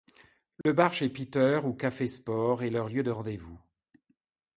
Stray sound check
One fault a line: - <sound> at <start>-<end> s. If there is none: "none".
- dropout at 0.6-0.7 s